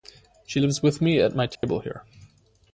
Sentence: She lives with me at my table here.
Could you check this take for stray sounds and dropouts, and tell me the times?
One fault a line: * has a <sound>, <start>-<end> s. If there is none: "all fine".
* has a dropout, 1.6-1.6 s